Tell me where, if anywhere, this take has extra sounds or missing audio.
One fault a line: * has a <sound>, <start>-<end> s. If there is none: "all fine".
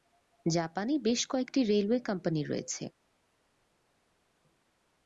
all fine